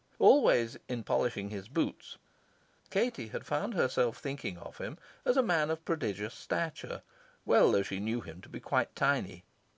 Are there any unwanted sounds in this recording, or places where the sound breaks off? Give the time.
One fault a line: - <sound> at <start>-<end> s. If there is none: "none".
none